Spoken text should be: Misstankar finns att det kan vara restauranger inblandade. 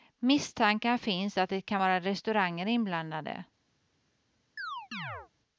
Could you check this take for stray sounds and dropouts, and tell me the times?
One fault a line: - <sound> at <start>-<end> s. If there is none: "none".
- chirp at 4.6-5.3 s